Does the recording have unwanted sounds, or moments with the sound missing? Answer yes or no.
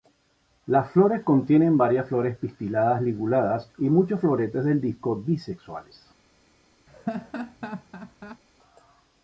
yes